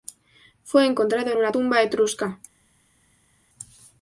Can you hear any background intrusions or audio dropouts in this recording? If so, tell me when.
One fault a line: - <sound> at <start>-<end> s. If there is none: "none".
none